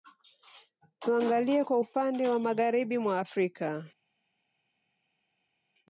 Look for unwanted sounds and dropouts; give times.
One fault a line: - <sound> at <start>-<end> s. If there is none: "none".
none